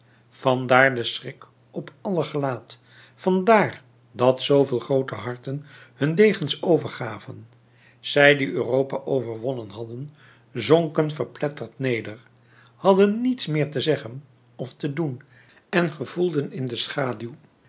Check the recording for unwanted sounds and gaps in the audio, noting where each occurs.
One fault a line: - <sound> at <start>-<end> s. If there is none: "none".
none